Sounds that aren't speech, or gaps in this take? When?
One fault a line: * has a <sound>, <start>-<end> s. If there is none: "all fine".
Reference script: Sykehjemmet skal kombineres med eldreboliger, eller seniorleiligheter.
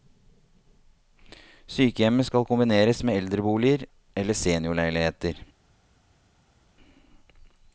all fine